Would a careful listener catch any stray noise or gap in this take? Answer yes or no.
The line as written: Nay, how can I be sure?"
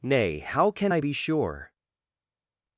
no